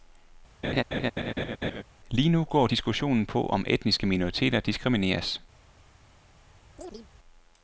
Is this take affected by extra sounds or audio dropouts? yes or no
yes